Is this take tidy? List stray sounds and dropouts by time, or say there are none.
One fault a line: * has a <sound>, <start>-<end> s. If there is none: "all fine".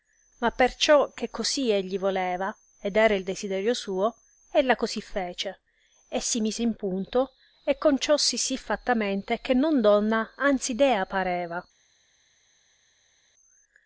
all fine